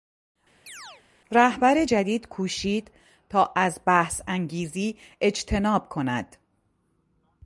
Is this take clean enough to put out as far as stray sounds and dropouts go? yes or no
no